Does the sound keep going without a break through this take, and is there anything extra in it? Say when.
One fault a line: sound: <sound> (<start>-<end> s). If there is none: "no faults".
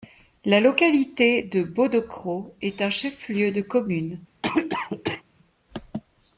sound: cough (4.4-5.2 s)